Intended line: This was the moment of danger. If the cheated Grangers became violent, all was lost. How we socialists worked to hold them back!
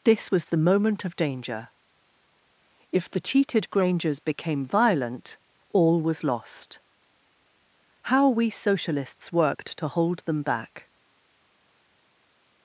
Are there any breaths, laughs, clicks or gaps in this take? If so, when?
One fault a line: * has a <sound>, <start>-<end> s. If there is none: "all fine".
all fine